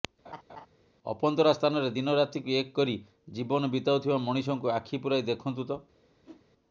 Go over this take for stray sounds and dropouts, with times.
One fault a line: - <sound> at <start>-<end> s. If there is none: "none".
- laugh at 0.2-0.7 s
- whoosh at 6.2-6.4 s